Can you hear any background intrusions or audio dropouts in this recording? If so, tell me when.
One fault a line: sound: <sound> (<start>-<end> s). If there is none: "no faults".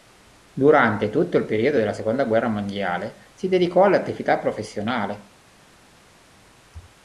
no faults